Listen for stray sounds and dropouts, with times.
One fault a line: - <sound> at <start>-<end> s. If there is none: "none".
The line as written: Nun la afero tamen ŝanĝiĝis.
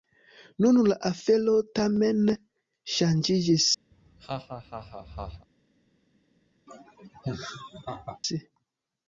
- laugh at 3.9-5.5 s
- laugh at 6.7-8.2 s